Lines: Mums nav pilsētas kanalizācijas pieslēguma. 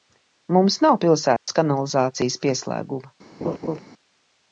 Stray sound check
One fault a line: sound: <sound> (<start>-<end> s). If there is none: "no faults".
sound: dropout (1.4-1.5 s)
sound: laugh (3.4-3.8 s)